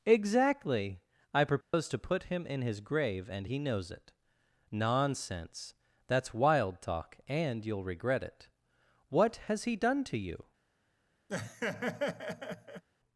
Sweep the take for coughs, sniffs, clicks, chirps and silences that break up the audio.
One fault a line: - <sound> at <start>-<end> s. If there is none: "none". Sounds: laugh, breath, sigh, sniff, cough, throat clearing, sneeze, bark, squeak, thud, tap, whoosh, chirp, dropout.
- dropout at 1.6-1.7 s
- laugh at 11.3-12.8 s